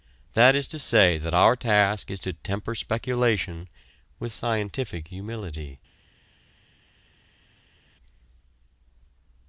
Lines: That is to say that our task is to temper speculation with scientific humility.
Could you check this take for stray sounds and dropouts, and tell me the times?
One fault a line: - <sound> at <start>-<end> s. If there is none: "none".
none